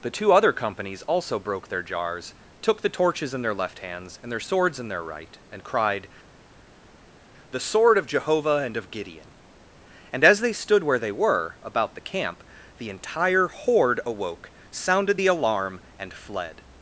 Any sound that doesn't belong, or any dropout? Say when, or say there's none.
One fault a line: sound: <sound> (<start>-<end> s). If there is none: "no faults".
no faults